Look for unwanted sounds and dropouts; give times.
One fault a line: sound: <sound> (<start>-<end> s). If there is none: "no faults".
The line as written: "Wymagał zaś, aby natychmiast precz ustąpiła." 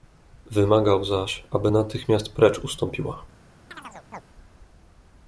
sound: chirp (3.7-4.2 s)